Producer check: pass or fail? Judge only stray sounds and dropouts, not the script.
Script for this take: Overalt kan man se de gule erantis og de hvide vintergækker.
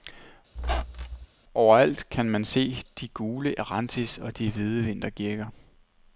fail